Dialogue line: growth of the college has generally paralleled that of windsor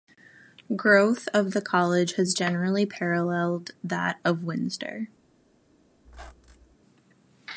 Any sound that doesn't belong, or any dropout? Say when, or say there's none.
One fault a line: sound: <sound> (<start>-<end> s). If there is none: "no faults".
sound: squeak (6.0-6.8 s)